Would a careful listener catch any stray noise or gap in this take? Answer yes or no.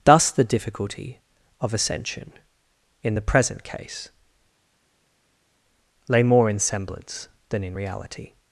no